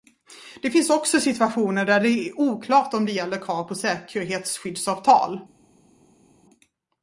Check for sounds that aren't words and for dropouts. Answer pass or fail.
pass